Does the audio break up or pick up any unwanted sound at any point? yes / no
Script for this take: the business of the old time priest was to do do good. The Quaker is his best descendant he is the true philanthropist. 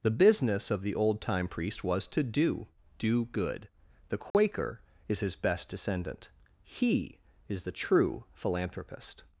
yes